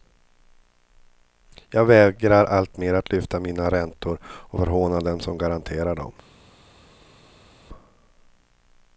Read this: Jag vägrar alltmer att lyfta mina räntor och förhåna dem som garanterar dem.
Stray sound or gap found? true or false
false